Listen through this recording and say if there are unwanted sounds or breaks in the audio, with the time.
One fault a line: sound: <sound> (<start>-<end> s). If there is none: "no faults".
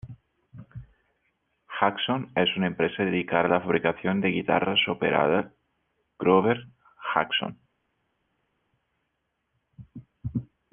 no faults